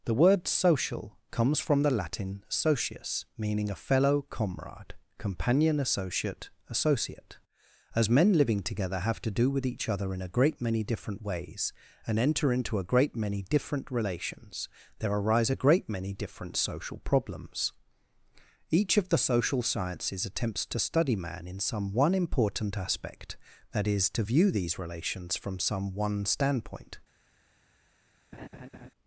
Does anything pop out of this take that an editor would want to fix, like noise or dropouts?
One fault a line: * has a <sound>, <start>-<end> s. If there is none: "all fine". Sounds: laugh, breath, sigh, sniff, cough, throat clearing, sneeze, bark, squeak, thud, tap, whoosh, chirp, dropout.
* has a laugh, 28.3-28.9 s